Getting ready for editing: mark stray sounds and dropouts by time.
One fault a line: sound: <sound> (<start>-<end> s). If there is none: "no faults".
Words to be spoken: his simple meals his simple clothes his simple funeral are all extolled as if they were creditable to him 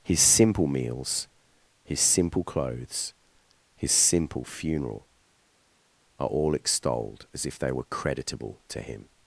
no faults